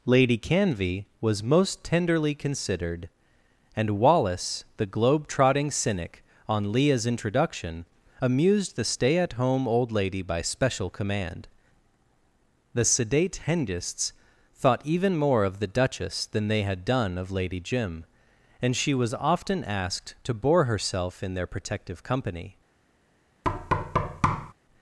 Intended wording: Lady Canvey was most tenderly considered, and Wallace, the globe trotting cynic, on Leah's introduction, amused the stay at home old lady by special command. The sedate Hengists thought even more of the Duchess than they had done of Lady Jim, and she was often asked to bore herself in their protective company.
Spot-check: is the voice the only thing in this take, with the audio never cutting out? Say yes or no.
no